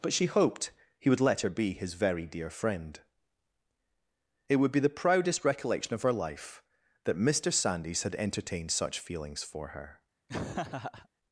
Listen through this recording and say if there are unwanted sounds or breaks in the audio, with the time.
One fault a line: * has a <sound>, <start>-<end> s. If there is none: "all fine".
* has a laugh, 10.3-11.1 s